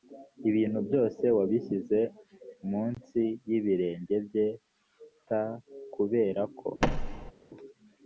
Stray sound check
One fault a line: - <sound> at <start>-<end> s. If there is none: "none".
- thud at 6.8-7.3 s